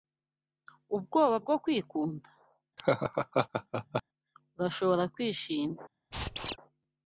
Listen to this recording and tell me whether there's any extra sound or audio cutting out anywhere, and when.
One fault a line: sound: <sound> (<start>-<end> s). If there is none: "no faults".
sound: laugh (2.8-4.0 s)
sound: squeak (6.1-6.6 s)